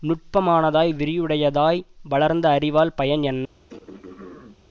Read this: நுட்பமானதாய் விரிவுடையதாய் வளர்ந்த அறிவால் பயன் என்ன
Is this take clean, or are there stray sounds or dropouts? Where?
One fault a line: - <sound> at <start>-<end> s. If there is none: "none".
- throat clearing at 3.7-4.7 s